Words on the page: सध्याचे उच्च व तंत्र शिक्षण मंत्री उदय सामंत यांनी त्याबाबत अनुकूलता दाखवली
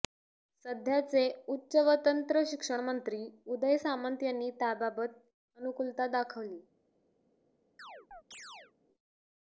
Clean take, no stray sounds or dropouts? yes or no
no